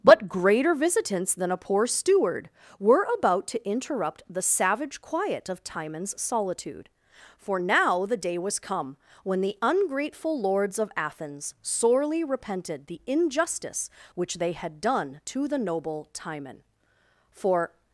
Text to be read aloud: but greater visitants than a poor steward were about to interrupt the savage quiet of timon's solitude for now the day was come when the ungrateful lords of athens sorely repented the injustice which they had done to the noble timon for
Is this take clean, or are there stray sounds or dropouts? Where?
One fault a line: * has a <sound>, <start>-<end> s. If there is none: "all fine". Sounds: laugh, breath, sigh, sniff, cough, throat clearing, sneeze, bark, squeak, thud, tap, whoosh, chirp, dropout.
all fine